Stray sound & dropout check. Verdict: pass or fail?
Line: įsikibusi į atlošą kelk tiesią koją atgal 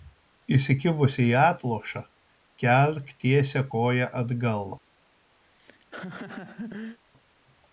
fail